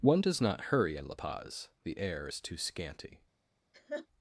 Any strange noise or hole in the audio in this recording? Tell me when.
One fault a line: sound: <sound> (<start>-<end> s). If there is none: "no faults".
sound: laugh (3.7-4.1 s)